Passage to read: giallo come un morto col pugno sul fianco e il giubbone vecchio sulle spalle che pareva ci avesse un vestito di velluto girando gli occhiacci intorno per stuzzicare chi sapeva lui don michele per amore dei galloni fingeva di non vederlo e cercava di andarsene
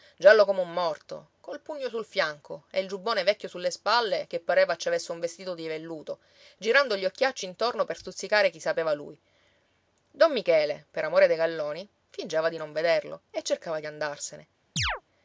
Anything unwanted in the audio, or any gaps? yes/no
yes